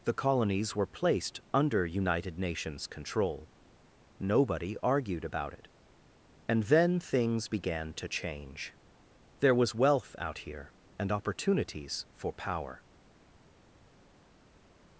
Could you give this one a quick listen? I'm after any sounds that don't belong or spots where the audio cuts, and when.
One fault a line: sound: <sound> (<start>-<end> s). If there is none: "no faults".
no faults